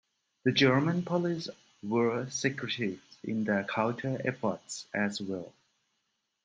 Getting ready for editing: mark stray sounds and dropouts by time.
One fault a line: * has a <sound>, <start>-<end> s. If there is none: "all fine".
all fine